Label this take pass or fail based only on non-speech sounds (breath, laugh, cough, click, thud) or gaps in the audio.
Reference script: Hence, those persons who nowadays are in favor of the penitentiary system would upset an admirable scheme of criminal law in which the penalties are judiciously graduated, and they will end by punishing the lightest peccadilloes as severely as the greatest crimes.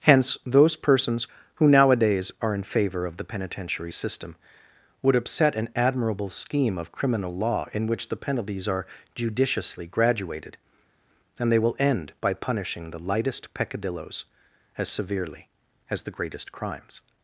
pass